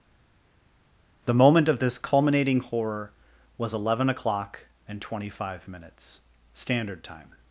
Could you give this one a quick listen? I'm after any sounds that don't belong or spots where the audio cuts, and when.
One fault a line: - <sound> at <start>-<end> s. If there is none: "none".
none